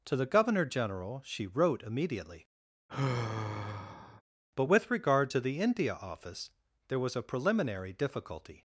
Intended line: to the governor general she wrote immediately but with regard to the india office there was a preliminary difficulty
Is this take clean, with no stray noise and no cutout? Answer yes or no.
no